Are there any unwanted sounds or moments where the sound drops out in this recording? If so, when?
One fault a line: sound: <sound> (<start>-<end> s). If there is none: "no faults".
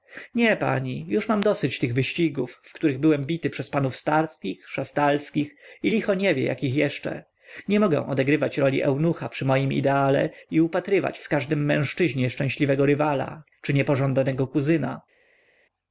no faults